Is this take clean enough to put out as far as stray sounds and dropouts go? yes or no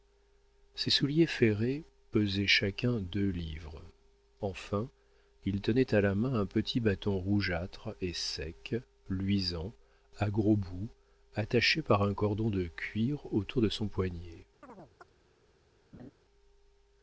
no